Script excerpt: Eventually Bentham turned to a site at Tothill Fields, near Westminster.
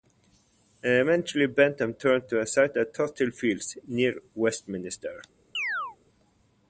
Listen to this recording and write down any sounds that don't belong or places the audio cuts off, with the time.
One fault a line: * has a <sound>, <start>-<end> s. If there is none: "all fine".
* has a chirp, 5.5-6.0 s